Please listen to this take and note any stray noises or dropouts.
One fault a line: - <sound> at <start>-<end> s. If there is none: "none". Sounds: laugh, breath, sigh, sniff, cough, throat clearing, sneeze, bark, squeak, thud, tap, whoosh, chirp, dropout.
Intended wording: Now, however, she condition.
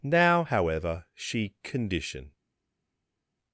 none